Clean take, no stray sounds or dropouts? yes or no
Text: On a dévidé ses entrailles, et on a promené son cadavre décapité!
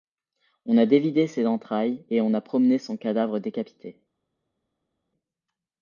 yes